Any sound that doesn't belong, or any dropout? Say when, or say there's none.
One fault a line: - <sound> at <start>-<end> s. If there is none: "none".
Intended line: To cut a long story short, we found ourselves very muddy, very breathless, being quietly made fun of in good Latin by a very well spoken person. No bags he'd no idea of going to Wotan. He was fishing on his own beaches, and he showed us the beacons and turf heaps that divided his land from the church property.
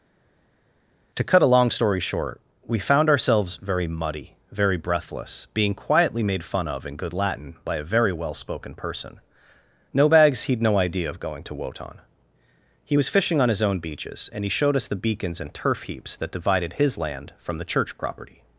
none